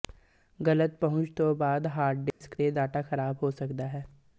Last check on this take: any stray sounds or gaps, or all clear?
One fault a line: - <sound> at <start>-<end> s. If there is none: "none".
- dropout at 2.3-2.4 s